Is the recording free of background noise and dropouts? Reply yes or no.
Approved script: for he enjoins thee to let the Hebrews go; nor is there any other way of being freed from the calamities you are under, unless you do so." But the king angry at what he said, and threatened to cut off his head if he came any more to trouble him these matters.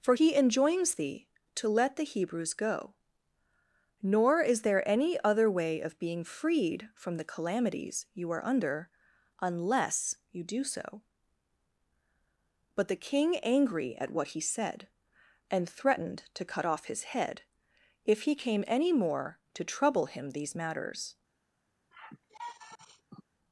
no